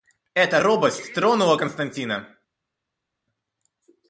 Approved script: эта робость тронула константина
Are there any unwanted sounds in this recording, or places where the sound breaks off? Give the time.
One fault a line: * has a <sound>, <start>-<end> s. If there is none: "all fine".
all fine